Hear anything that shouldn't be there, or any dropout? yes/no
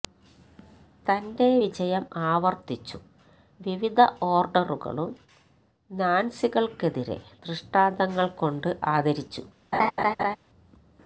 yes